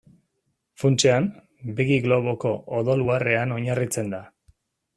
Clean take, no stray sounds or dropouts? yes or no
yes